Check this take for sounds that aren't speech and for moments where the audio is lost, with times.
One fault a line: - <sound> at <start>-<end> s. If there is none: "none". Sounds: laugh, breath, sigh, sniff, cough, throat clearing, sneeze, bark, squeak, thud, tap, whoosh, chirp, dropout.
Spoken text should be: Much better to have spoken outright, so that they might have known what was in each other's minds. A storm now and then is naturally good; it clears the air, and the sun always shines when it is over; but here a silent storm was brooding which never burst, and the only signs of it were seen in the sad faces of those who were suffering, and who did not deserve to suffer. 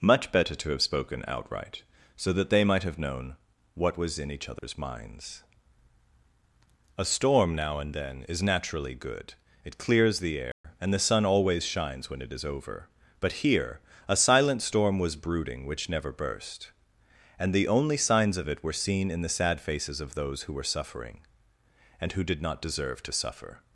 - dropout at 4.6-4.6 s
- dropout at 10.5-10.6 s